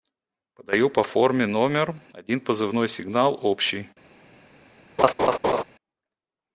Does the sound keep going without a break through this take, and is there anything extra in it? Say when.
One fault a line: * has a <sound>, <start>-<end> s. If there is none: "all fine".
* has a laugh, 5.0-5.6 s